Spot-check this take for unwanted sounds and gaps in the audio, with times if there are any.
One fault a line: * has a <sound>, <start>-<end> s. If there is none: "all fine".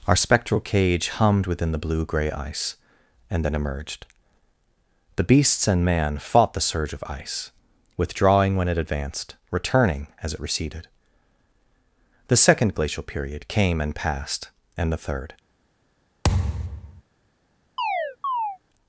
* has a thud, 16.2-17.0 s
* has a chirp, 17.8-18.6 s